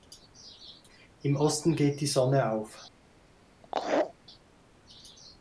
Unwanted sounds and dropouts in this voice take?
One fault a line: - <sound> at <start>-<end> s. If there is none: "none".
- laugh at 3.6-4.1 s